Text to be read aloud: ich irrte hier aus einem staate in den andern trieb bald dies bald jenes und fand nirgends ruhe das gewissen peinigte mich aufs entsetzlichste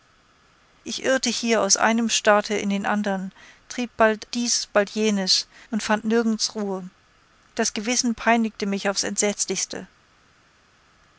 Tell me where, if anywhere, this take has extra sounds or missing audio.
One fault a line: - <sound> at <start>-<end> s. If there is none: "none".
none